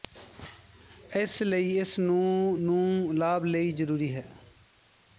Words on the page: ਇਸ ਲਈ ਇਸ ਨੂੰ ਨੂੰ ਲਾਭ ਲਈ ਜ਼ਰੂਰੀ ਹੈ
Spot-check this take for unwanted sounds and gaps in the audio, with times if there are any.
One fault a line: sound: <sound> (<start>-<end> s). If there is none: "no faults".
no faults